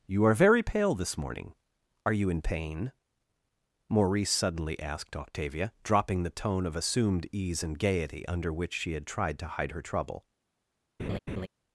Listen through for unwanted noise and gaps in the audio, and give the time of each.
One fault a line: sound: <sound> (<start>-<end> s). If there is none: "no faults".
sound: laugh (11.0-11.5 s)